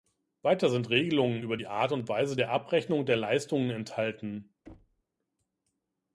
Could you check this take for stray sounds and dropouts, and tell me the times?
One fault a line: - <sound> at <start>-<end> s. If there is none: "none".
- thud at 4.7-5.0 s